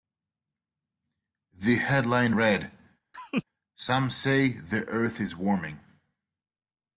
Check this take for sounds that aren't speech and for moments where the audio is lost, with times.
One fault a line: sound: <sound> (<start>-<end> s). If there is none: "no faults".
sound: laugh (3.1-3.4 s)